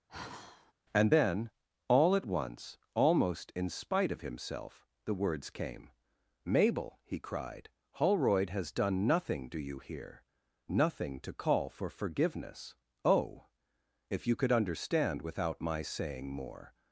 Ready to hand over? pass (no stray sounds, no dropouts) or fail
fail